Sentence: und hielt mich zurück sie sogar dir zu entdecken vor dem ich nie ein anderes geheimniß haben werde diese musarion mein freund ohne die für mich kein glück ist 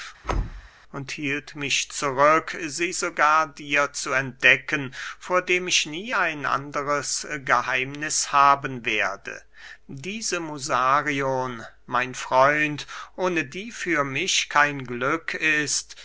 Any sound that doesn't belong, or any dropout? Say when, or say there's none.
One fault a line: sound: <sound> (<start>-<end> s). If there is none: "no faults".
sound: thud (0.2-0.7 s)